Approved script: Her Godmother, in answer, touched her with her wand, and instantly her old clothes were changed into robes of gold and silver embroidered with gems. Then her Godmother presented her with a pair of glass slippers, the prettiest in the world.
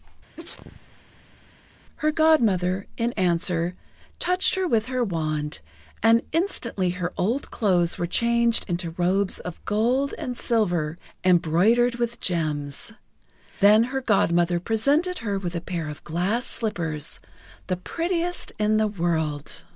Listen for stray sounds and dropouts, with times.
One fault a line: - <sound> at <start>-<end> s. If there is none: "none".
- sneeze at 0.4-1.5 s